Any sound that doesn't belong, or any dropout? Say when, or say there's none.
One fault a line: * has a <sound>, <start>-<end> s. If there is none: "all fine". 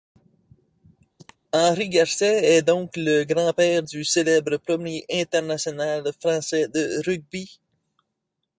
* has a cough, 1.2-1.4 s